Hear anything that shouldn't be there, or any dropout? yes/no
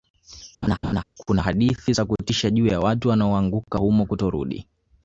yes